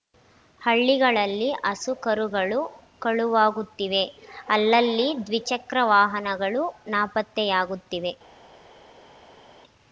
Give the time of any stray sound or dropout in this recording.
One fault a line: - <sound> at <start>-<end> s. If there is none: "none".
none